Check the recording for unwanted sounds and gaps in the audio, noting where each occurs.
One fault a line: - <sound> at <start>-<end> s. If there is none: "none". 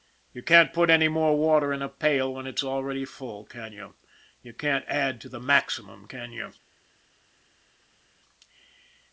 none